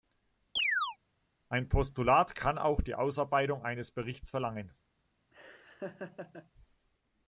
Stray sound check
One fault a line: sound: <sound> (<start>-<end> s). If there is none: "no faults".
sound: chirp (0.6-1.0 s)
sound: laugh (5.3-6.5 s)